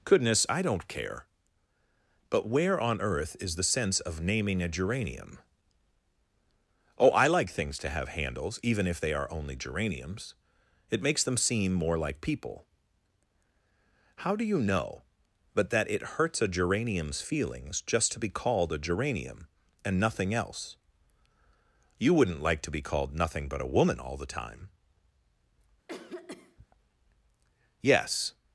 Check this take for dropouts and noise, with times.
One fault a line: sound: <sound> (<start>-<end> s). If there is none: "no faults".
sound: cough (25.9-26.7 s)